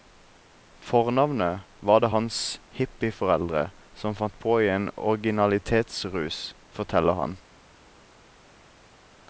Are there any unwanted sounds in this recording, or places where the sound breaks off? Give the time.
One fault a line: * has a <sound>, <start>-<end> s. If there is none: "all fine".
all fine